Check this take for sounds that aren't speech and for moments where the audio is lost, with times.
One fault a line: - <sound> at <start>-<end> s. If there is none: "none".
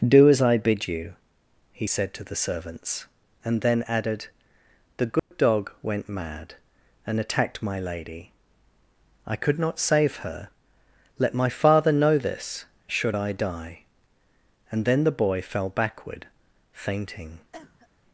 - dropout at 5.2-5.3 s
- cough at 17.5-17.9 s